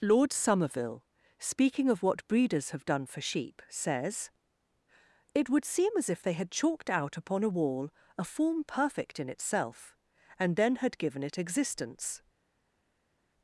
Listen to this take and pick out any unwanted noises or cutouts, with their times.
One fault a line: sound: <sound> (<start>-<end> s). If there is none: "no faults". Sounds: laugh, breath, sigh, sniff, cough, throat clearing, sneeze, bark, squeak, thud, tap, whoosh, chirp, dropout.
no faults